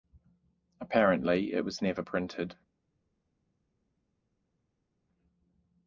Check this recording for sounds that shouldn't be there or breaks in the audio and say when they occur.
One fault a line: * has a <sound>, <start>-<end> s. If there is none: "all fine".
all fine